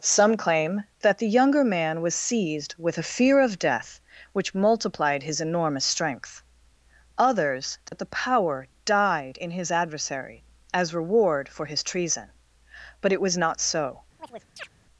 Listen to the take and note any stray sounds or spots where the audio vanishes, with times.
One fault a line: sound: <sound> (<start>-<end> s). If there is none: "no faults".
sound: dropout (7.9-7.9 s)
sound: chirp (14.2-14.7 s)